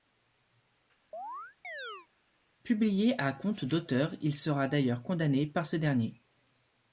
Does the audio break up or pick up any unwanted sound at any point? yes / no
yes